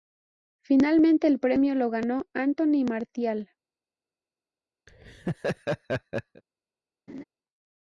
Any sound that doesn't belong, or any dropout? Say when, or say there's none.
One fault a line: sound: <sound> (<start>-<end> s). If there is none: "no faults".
sound: laugh (4.9-6.4 s)
sound: laugh (7.1-7.2 s)